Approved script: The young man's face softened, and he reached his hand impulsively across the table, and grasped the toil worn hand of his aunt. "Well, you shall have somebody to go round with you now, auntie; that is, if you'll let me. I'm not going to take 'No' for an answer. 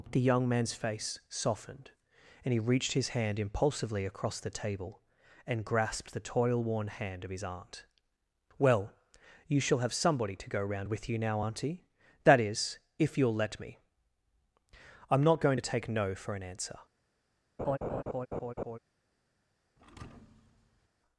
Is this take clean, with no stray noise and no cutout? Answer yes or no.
no